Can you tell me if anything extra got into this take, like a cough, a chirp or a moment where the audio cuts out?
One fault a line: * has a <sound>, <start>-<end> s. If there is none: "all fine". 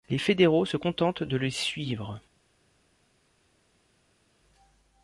all fine